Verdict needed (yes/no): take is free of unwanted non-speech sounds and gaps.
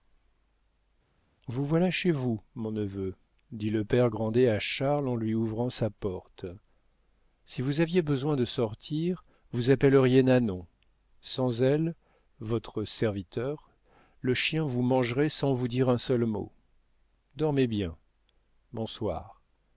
yes